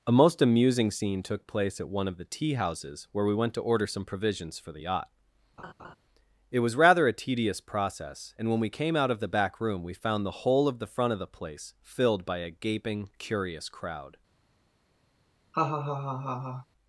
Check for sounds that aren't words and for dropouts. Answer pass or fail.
fail